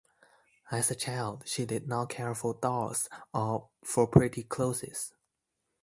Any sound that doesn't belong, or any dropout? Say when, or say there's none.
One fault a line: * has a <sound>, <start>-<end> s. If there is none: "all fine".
all fine